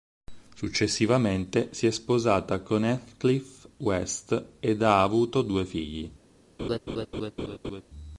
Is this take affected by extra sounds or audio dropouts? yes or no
yes